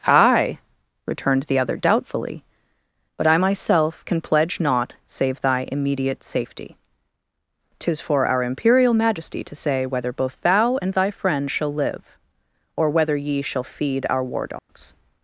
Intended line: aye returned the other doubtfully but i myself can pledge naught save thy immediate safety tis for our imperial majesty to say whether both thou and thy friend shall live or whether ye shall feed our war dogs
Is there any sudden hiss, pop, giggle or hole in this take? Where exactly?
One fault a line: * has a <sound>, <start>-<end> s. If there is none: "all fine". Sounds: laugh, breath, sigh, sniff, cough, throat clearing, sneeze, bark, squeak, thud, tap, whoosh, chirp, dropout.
* has a dropout, 14.6-14.7 s